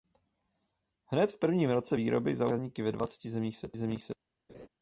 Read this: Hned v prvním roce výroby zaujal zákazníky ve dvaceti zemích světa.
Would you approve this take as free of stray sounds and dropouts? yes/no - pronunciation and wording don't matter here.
no